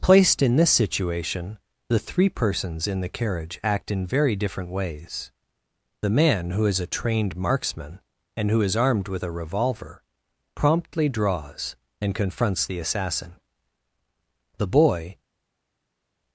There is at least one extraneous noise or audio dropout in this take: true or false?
false